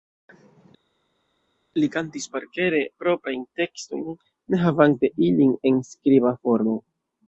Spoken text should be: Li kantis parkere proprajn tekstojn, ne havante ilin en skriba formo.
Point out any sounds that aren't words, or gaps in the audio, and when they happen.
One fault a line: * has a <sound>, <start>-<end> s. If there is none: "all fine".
all fine